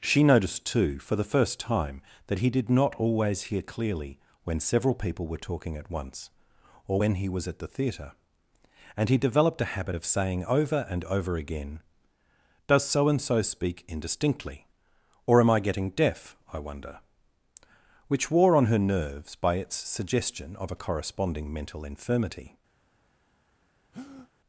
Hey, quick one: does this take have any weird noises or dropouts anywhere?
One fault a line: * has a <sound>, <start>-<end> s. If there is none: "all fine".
* has a breath, 23.9-24.3 s